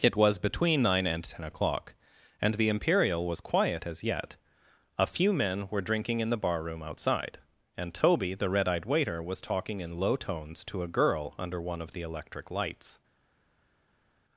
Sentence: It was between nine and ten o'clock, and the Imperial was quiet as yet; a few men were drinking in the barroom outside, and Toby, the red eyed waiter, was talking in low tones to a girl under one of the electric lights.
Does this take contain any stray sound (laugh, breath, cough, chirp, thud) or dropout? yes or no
no